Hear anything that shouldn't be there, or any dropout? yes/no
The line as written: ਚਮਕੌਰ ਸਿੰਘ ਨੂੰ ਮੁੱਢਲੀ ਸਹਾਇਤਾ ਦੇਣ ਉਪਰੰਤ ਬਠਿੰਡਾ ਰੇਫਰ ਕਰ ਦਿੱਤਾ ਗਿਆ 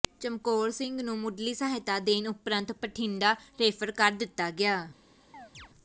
yes